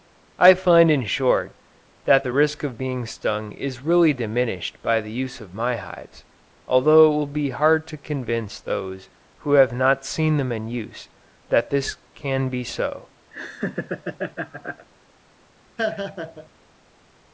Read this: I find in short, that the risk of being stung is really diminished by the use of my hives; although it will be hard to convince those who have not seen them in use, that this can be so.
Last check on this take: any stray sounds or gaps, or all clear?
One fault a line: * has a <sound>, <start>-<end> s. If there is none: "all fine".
* has a laugh, 13.3-14.9 s
* has a laugh, 15.8-16.5 s